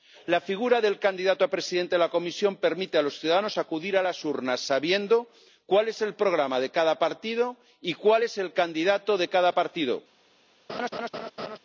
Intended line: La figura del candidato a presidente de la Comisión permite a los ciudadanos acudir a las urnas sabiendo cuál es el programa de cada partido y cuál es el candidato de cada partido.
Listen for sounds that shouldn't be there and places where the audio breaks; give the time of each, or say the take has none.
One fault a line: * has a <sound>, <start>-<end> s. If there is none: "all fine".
* has a laugh, 10.7-11.6 s